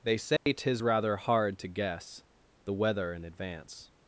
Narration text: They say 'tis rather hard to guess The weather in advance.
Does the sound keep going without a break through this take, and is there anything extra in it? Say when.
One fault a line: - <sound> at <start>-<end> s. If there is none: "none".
- dropout at 0.4-0.5 s